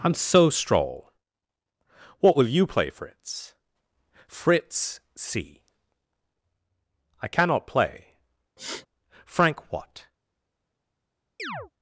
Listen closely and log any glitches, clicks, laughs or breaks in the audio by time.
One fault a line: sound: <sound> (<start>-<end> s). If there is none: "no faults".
sound: sniff (8.6-8.9 s)
sound: chirp (11.4-11.7 s)